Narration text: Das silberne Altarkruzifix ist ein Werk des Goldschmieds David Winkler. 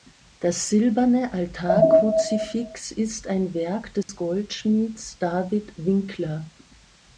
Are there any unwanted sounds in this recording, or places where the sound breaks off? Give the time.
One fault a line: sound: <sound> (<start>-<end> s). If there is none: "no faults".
sound: dropout (4.0-4.1 s)